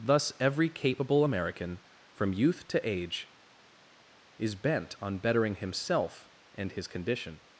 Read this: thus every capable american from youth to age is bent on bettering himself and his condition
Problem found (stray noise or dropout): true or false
false